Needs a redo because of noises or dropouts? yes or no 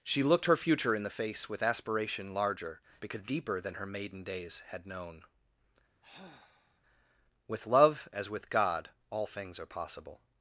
yes